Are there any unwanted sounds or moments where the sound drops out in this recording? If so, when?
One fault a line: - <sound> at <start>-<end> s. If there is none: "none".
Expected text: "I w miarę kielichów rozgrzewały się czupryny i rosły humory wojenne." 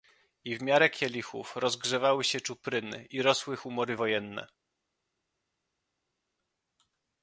none